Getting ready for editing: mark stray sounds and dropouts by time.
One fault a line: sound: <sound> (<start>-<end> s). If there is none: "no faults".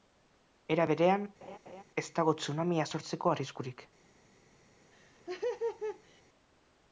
sound: laugh (1.4-1.8 s)
sound: laugh (4.9-6.2 s)